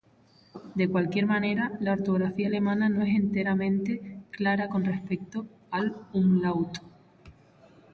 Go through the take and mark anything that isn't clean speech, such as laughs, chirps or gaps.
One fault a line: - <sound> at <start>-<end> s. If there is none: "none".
none